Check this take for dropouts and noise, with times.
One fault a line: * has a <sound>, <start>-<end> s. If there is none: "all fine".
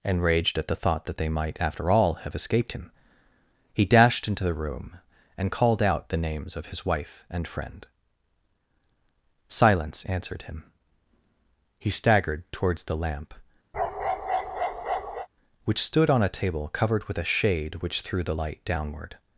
* has a bark, 13.7-15.3 s